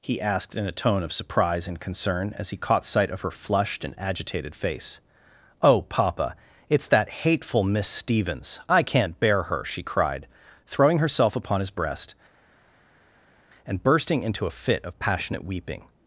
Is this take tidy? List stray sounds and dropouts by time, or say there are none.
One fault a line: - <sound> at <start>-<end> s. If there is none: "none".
none